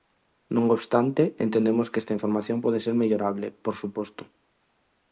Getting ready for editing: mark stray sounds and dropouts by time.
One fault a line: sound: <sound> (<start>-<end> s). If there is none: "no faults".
no faults